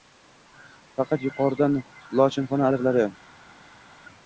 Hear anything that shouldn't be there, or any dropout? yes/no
no